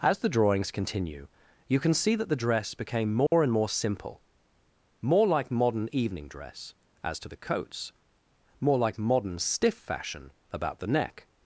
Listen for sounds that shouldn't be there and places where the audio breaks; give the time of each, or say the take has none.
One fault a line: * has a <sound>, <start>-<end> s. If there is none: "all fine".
* has a dropout, 3.3-3.3 s